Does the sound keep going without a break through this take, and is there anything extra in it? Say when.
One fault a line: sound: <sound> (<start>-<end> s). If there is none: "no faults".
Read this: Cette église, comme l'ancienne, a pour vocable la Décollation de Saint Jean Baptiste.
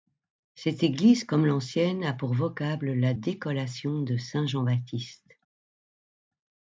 no faults